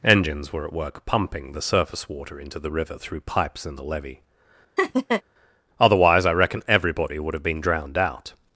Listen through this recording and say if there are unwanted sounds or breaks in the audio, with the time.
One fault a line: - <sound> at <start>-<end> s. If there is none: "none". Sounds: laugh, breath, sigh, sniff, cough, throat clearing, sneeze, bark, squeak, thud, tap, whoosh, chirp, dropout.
- laugh at 4.8-5.2 s